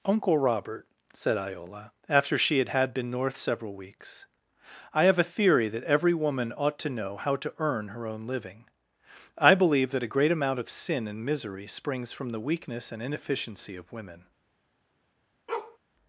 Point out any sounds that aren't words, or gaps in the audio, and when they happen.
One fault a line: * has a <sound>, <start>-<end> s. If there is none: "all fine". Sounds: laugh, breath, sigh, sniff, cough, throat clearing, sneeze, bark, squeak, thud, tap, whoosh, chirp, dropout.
* has a bark, 15.5-15.8 s